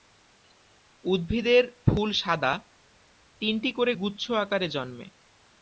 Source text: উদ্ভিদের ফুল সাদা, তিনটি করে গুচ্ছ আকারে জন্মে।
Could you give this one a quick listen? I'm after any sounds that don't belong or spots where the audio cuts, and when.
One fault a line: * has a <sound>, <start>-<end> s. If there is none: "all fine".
all fine